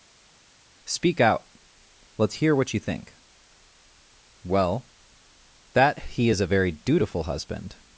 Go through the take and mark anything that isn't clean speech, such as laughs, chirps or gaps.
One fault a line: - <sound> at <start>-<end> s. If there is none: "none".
none